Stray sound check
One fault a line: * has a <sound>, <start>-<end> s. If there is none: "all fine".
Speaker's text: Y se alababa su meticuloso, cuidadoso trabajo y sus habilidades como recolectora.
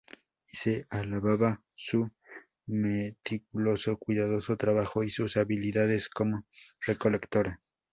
all fine